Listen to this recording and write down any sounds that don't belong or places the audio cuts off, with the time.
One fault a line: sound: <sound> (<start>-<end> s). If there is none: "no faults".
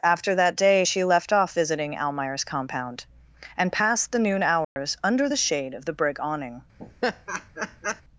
sound: dropout (4.6-4.8 s)
sound: laugh (6.8-8.0 s)